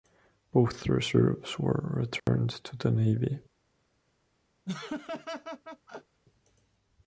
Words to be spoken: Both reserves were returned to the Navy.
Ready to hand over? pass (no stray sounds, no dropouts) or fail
fail